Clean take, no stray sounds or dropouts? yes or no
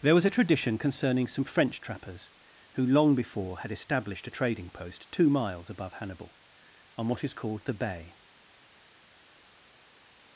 yes